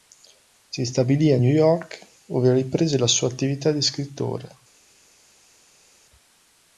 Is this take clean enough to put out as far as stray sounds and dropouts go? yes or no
yes